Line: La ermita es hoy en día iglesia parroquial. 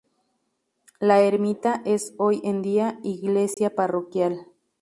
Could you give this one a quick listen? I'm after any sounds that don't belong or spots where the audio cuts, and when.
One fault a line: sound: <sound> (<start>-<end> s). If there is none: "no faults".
sound: dropout (3.5-3.6 s)